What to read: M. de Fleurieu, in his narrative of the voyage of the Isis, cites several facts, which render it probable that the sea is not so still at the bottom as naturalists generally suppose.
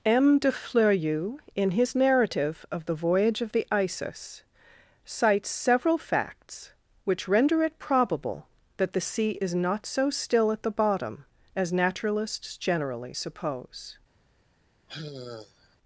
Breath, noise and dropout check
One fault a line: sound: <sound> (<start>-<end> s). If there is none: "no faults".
sound: sigh (14.9-15.8 s)